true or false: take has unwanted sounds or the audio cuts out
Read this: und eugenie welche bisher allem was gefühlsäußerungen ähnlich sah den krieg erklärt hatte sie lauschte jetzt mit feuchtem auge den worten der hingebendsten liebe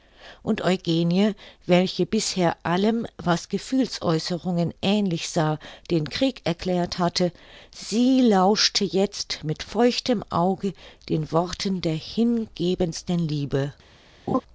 true